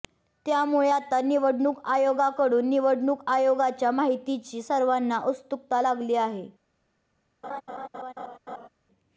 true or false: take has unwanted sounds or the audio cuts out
true